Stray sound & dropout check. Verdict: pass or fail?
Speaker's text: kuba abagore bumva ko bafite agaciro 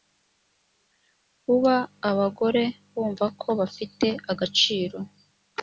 pass